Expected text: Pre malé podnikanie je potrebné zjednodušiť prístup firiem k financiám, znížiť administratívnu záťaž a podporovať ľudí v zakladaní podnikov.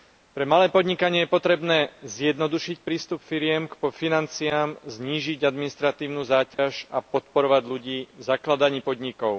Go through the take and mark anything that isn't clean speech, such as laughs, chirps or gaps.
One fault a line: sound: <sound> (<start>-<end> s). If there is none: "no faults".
sound: dropout (6.5-6.6 s)